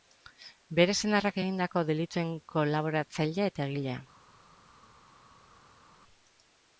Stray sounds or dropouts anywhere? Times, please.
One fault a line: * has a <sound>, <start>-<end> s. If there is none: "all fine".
all fine